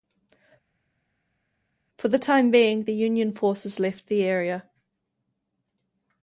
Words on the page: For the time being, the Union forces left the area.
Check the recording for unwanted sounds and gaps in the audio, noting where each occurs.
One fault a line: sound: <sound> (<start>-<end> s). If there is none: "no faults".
no faults